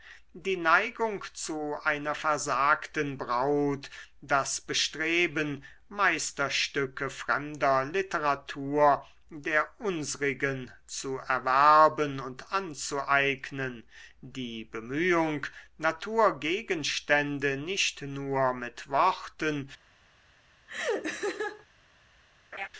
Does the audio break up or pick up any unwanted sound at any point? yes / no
yes